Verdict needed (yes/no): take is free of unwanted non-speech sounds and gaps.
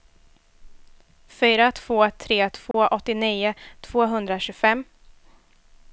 no